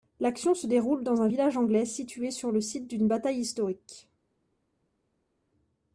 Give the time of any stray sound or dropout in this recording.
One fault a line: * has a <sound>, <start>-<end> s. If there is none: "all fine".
all fine